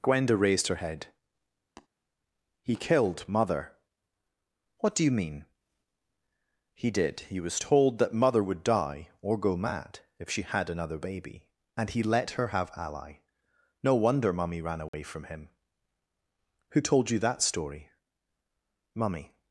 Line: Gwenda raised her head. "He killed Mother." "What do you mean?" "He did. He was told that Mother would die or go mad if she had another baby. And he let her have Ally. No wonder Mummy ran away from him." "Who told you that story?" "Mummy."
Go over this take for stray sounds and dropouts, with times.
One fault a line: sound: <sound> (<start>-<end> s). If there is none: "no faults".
sound: tap (1.8-1.9 s)
sound: dropout (14.9-14.9 s)